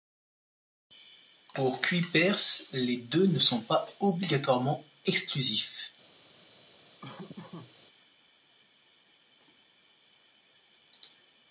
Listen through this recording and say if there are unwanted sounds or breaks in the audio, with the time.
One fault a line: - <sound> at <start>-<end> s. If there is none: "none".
- laugh at 7.0-7.7 s